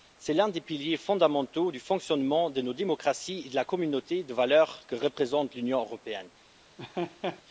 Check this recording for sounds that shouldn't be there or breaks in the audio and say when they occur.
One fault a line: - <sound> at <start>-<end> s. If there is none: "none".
- laugh at 6.8-7.4 s